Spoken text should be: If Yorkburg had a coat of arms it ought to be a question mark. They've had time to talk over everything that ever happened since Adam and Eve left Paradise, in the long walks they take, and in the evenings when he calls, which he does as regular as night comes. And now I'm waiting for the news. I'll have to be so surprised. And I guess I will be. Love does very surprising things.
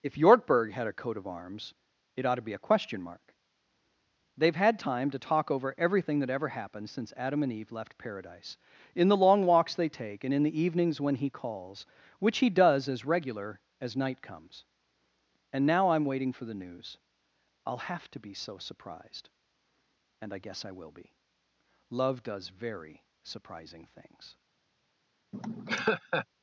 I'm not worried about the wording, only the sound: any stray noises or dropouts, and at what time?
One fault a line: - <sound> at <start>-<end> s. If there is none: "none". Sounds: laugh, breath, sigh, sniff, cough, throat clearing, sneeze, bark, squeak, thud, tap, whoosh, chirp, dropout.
- laugh at 25.3-26.3 s